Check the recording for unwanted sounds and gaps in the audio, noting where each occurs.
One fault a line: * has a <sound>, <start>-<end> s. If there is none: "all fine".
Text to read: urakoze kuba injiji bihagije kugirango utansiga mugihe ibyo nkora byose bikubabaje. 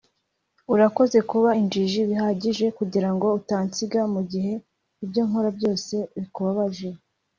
all fine